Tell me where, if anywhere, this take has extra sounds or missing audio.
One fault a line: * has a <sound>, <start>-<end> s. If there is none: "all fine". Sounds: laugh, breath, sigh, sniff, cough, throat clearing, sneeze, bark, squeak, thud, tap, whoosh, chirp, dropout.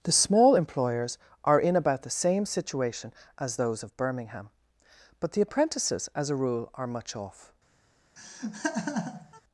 * has a laugh, 8.2-9.4 s